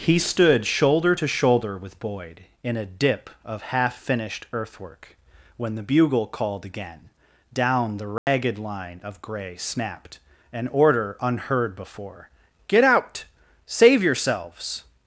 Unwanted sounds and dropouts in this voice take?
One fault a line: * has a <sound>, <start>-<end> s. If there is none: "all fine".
* has a dropout, 8.2-8.3 s